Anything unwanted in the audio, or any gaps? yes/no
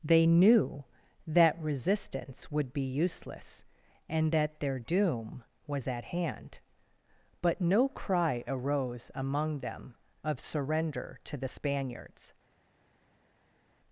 no